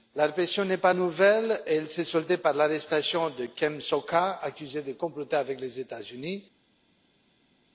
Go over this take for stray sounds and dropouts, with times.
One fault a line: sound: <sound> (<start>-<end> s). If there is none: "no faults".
no faults